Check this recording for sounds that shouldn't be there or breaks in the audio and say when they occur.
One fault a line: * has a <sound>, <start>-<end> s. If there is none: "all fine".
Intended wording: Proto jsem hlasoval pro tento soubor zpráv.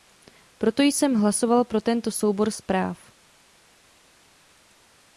all fine